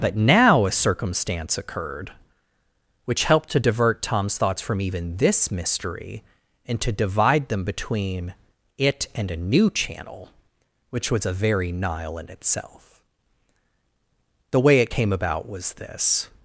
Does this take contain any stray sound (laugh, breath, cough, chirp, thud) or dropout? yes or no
no